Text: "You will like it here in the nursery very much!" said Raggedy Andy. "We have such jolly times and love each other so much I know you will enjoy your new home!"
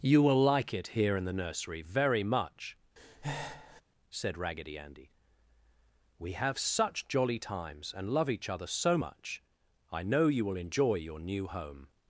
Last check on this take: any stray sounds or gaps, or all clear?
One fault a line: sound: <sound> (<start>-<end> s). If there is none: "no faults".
sound: breath (3.0-3.8 s)